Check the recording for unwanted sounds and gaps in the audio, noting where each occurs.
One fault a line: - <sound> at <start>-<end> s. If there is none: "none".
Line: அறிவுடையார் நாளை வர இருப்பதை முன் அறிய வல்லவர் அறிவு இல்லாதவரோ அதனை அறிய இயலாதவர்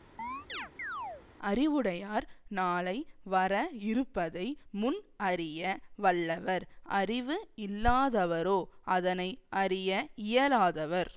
- chirp at 0.2-1.3 s